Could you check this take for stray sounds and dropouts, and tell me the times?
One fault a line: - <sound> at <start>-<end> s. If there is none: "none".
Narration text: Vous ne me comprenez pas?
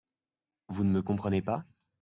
none